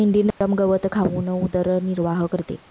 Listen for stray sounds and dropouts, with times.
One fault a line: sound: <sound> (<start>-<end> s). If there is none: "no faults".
sound: dropout (0.3-0.4 s)